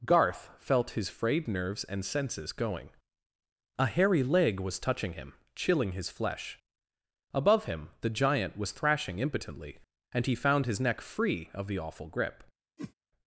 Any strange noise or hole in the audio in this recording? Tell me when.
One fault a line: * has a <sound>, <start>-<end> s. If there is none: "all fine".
* has a whoosh, 12.8-12.9 s